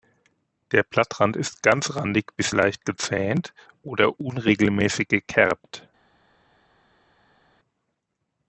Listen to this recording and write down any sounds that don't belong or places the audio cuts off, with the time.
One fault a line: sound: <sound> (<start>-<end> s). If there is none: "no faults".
no faults